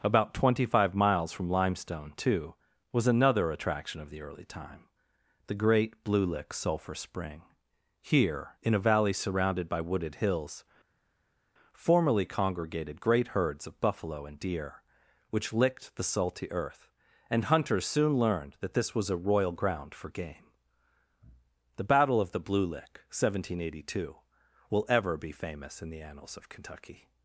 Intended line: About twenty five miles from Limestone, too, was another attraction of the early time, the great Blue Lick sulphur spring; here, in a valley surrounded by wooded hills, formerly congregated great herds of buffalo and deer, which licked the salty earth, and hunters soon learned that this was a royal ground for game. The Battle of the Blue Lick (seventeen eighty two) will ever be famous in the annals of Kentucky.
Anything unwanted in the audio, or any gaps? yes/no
no